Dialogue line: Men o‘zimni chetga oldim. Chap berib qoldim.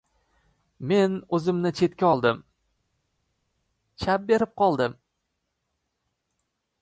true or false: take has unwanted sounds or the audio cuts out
false